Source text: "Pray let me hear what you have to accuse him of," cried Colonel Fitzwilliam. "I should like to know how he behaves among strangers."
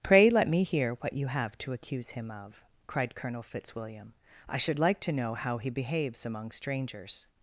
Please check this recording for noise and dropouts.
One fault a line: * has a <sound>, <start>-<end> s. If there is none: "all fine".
all fine